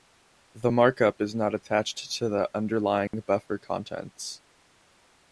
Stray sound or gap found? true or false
true